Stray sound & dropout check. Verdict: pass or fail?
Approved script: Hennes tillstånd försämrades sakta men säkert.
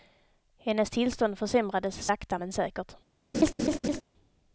fail